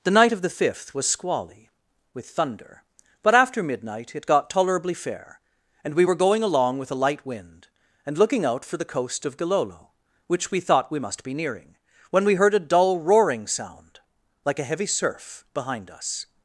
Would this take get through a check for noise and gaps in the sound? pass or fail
pass